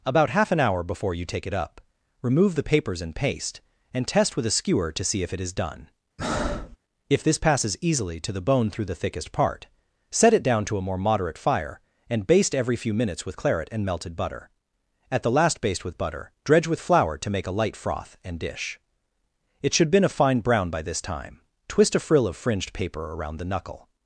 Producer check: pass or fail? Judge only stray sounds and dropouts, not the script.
fail